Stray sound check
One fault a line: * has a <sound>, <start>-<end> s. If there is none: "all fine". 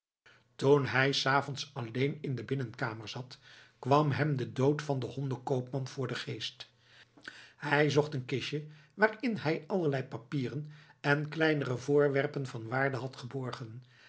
all fine